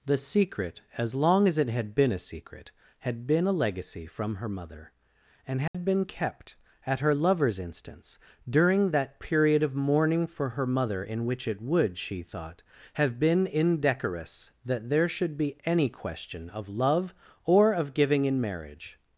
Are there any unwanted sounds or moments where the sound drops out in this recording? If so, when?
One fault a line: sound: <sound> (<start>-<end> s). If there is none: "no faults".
sound: dropout (5.7-5.7 s)